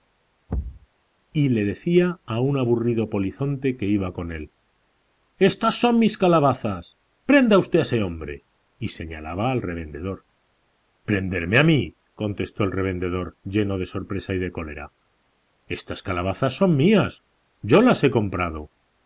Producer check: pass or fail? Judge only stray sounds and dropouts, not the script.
fail